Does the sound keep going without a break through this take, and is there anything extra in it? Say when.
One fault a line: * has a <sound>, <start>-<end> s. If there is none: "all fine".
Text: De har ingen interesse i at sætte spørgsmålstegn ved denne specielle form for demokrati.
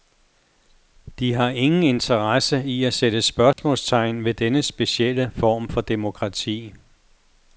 * has a dropout, 3.5-3.6 s